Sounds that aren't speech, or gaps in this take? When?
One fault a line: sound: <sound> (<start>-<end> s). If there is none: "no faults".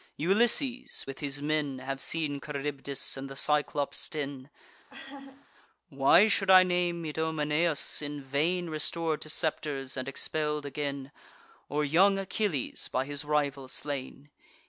sound: laugh (4.9-5.5 s)